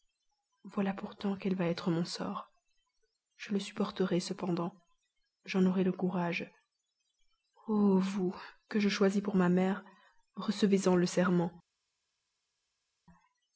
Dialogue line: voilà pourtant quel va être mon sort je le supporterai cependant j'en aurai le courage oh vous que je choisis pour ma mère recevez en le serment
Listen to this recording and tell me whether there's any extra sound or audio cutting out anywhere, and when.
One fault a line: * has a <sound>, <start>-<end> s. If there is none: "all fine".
all fine